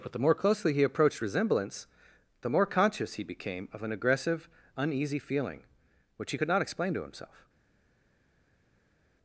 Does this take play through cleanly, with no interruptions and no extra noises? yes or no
yes